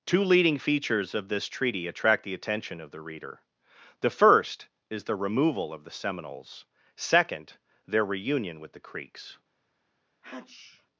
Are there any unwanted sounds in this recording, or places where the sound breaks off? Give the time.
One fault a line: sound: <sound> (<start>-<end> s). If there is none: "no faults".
sound: sneeze (10.2-10.9 s)